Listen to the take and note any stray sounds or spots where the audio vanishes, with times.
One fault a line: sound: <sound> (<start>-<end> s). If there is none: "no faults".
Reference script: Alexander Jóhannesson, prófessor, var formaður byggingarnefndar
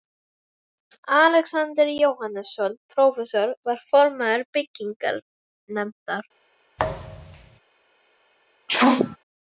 sound: thud (6.8-7.6 s)
sound: sneeze (8.7-9.2 s)